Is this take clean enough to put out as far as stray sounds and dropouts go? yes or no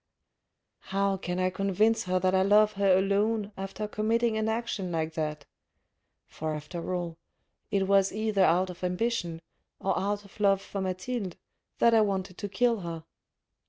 yes